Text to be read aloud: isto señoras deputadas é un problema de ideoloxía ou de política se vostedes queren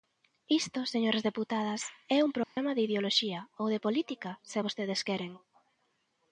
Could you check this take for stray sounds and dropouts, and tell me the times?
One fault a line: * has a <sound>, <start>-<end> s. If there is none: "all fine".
* has a dropout, 2.4-2.6 s